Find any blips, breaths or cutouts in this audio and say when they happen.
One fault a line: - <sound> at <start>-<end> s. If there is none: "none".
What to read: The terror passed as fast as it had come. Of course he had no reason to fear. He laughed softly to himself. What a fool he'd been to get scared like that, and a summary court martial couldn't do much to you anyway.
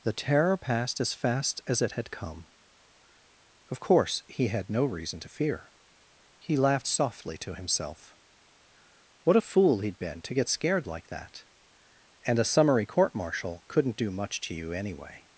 none